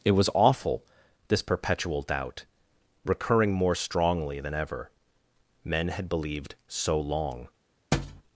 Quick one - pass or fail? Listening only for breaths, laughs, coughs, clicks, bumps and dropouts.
fail